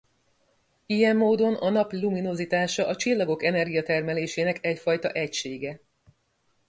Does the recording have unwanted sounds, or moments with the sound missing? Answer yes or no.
no